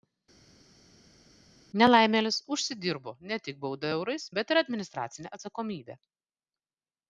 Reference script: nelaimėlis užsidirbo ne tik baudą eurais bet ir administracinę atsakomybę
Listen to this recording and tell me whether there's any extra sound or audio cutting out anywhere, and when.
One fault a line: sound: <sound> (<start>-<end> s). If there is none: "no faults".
no faults